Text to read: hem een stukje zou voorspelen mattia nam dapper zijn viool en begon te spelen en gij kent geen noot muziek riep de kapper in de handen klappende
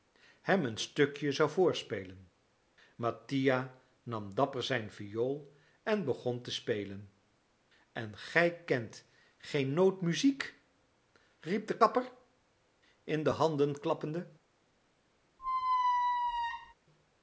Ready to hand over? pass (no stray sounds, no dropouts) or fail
fail